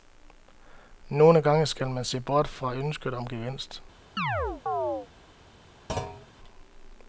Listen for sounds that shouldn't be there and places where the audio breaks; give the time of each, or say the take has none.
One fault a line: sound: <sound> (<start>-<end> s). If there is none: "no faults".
sound: chirp (4.2-5.1 s)
sound: thud (5.9-6.3 s)